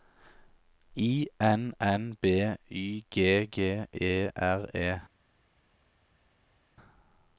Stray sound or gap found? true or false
false